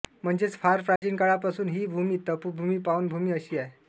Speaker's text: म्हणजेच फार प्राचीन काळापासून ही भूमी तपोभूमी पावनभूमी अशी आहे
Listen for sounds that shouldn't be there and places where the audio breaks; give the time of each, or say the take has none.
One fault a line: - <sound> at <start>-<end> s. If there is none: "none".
- dropout at 1.0-1.0 s